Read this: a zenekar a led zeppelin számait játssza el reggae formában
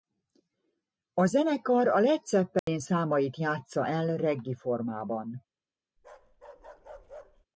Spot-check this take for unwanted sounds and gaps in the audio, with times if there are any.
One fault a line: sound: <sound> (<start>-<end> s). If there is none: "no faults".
sound: dropout (2.6-2.7 s)
sound: bark (6.0-7.5 s)